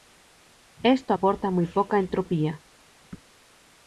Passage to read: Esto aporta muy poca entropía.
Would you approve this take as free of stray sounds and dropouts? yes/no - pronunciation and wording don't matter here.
yes